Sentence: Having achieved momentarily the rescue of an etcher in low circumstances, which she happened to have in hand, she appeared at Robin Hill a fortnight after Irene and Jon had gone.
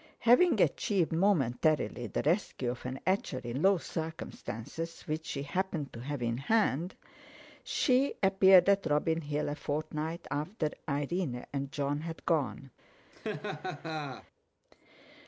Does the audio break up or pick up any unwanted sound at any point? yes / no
yes